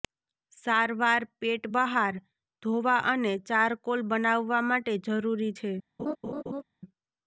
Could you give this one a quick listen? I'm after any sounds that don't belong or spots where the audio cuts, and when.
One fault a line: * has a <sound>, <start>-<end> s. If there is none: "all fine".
* has a laugh, 6.0-6.6 s